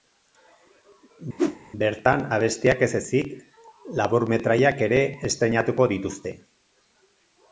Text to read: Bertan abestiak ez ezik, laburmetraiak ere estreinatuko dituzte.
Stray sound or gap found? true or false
true